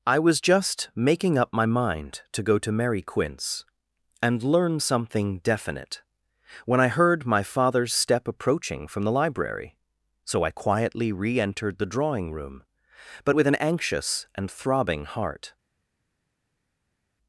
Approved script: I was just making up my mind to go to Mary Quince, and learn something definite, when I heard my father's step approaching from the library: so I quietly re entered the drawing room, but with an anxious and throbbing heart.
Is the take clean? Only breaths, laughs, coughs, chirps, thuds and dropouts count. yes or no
yes